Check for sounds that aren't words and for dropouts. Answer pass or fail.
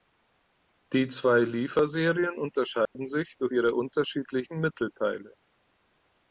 fail